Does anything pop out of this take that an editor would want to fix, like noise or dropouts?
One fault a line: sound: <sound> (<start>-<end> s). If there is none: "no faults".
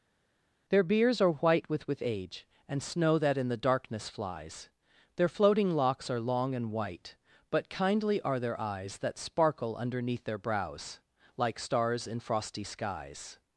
no faults